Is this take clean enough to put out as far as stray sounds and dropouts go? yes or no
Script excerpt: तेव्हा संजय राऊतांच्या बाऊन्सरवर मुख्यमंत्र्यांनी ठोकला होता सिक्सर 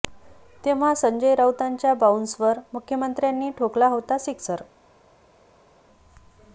yes